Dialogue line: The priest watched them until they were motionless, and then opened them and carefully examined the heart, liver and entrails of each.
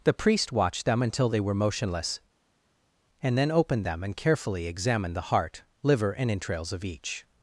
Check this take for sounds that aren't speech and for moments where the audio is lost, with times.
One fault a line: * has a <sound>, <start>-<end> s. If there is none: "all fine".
all fine